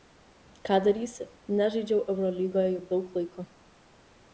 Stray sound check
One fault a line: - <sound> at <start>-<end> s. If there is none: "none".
none